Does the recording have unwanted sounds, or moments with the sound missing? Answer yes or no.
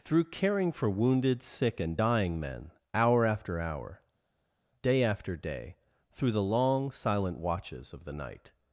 no